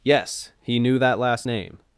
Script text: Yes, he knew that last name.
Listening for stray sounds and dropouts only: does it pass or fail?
pass